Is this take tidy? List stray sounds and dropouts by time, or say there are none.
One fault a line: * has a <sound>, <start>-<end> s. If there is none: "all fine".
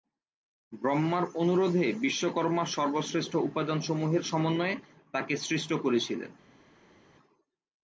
all fine